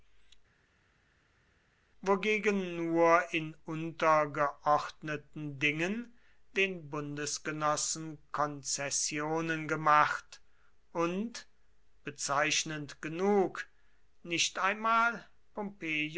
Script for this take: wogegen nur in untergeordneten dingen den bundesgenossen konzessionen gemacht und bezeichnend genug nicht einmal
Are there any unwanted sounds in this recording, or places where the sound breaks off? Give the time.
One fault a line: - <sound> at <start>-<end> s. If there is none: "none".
none